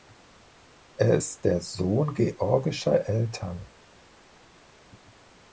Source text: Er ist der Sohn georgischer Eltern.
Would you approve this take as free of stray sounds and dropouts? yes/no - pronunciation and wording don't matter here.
yes